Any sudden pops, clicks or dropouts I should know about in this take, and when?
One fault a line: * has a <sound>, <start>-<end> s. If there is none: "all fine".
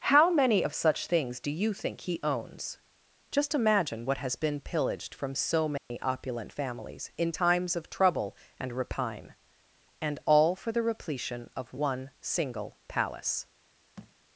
* has a dropout, 5.8-5.9 s
* has a thud, 14.0-14.2 s